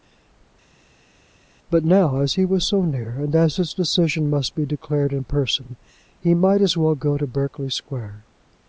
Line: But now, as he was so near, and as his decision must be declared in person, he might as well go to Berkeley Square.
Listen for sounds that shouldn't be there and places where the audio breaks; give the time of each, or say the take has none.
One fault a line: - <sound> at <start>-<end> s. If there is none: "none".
none